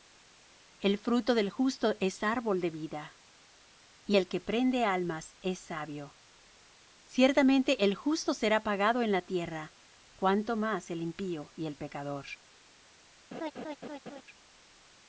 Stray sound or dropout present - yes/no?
yes